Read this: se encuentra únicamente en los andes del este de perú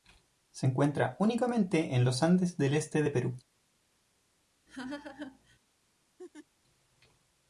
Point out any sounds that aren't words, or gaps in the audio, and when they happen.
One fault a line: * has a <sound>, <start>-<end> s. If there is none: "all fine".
* has a laugh, 4.7-5.6 s
* has a laugh, 6.2-6.5 s